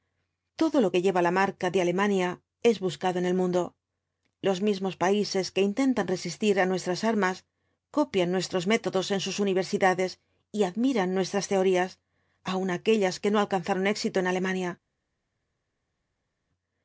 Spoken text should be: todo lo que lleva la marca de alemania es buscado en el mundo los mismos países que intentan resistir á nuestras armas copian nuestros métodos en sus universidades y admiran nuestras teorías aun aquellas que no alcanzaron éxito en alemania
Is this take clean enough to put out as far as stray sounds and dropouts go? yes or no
yes